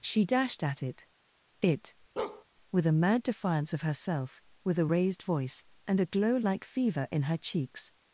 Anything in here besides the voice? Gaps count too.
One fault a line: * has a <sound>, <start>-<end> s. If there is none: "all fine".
* has a bark, 2.2-2.4 s